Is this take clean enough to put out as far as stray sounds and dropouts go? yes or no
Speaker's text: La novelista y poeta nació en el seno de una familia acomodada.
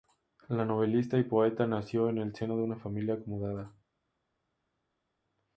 yes